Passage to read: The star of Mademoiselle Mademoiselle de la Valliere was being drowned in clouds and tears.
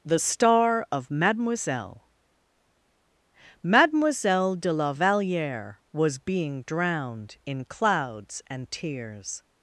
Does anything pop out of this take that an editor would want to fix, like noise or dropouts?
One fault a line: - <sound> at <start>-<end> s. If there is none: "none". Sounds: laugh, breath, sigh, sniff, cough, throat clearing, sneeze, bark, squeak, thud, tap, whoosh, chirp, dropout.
none